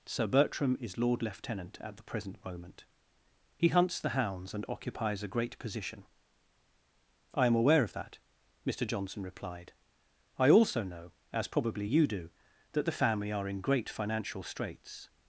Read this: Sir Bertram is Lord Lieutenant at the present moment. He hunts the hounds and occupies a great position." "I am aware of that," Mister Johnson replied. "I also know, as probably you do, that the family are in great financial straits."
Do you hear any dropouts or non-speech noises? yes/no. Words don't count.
no